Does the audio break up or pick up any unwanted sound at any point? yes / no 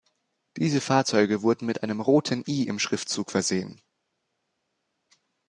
no